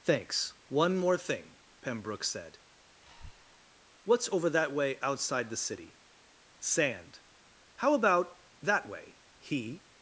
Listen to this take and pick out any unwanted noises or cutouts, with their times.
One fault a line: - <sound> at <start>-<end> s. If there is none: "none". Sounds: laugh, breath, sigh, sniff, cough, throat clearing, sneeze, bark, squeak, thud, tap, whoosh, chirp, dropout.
- breath at 3.0-3.7 s